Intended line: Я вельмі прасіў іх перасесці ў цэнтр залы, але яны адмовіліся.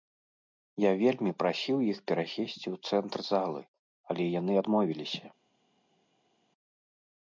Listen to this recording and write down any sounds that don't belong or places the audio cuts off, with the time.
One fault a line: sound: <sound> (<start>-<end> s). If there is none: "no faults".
no faults